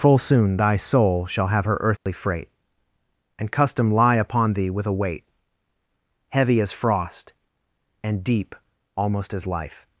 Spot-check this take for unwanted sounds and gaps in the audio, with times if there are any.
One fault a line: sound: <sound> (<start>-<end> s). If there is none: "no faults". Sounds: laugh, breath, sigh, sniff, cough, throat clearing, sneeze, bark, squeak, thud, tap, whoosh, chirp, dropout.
sound: dropout (2.0-2.1 s)